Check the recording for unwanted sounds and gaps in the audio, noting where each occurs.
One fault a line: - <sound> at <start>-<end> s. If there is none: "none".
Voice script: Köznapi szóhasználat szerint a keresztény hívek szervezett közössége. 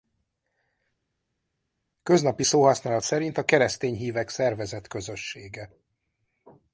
none